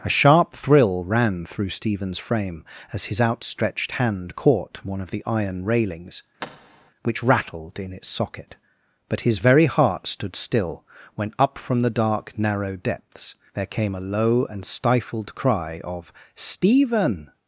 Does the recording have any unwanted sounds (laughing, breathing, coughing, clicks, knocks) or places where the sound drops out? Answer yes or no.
yes